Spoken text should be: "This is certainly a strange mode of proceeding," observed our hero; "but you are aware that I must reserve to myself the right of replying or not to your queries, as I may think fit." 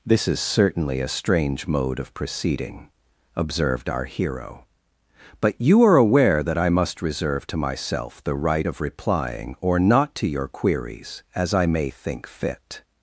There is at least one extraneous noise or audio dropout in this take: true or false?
false